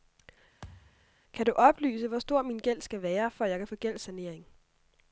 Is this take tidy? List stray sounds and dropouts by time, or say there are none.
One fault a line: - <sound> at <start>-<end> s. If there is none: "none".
- thud at 0.6-1.1 s